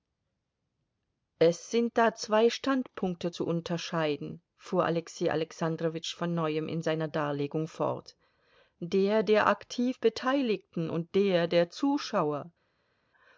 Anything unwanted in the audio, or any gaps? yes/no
no